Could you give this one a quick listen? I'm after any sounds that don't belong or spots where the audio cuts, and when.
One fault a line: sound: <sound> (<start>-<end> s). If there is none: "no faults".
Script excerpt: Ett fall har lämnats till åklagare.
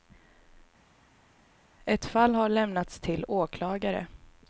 no faults